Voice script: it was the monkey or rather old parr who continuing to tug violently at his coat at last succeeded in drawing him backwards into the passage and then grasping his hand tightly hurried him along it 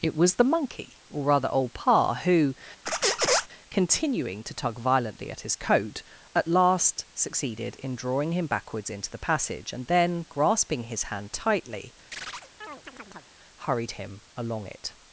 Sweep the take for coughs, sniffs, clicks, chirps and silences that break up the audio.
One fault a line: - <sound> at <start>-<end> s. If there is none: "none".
- squeak at 2.9-3.5 s
- chirp at 12.1-13.3 s